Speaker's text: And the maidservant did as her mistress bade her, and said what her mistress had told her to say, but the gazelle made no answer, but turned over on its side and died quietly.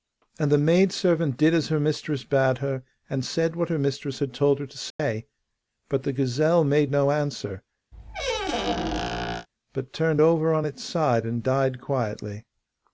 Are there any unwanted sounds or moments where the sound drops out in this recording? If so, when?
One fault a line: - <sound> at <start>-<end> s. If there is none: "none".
- dropout at 4.9-5.0 s
- squeak at 7.9-9.5 s